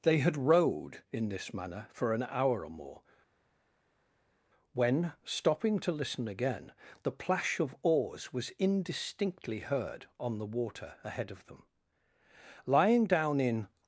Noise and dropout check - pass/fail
pass